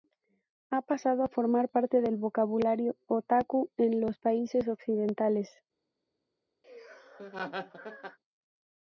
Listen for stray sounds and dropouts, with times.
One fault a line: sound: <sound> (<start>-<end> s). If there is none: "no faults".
sound: laugh (6.6-8.2 s)